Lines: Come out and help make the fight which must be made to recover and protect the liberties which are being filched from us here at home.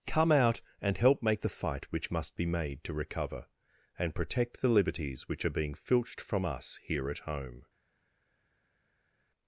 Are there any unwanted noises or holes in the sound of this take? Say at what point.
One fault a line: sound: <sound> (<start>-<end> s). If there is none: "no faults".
no faults